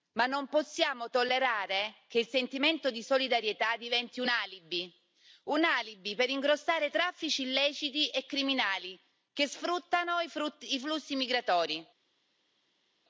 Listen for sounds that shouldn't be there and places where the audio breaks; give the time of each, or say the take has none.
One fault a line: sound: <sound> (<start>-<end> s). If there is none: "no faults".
no faults